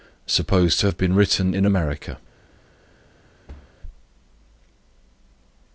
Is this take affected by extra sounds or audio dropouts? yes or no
yes